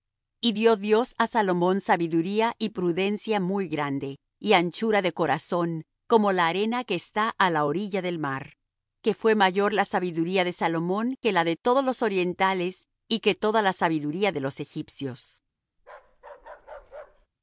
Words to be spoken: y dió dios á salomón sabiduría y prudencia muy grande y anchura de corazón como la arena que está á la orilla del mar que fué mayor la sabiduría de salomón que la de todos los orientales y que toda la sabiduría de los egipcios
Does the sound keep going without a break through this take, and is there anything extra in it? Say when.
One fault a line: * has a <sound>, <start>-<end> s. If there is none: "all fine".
* has a bark, 15.8-17.3 s